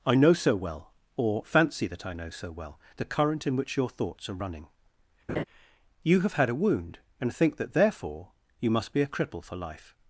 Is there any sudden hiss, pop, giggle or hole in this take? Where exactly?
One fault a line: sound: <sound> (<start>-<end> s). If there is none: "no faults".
sound: laugh (5.3-5.4 s)